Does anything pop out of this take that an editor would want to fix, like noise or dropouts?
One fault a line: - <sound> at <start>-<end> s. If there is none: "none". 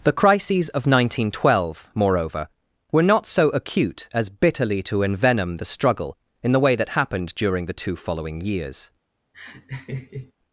- laugh at 9.3-10.3 s